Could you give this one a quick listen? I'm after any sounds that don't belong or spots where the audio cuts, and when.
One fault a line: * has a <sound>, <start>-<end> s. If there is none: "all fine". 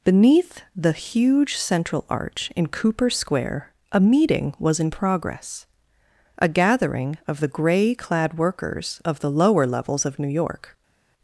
all fine